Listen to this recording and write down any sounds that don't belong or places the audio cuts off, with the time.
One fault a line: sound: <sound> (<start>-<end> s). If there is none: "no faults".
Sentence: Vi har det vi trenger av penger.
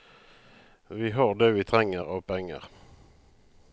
no faults